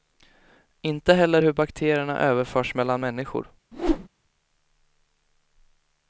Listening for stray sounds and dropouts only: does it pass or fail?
fail